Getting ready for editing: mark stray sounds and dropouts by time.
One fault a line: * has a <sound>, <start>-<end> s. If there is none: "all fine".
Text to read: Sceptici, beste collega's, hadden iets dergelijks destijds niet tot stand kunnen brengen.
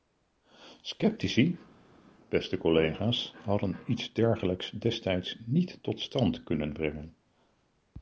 all fine